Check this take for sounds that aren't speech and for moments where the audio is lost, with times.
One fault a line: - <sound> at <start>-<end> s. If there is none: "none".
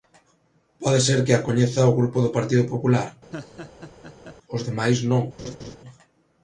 - laugh at 3.3-4.4 s
- laugh at 5.4-5.8 s